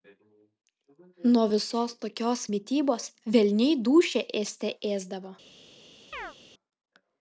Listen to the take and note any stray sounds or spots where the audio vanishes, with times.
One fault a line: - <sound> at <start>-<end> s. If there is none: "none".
- chirp at 6.1-6.4 s